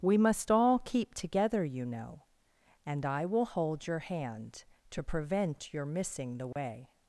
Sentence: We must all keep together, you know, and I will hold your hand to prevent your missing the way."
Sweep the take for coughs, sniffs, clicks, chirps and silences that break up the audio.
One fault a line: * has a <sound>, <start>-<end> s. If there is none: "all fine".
* has a dropout, 6.5-6.6 s